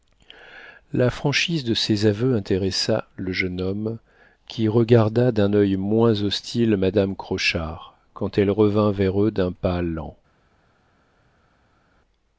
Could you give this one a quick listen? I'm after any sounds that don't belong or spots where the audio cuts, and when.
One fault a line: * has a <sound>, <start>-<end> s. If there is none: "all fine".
all fine